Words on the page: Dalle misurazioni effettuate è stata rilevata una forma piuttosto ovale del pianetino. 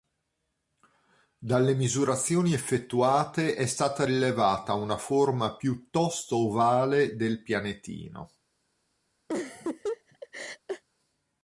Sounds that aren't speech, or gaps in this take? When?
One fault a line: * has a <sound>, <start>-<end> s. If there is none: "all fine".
* has a laugh, 9.3-10.8 s